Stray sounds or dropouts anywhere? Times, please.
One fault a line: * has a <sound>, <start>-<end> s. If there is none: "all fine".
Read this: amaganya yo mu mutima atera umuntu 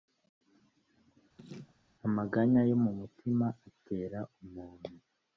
* has a laugh, 1.4-1.8 s